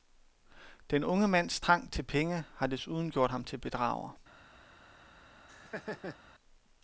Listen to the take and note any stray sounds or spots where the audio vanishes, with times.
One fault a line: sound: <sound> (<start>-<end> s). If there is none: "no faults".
sound: laugh (5.5-6.2 s)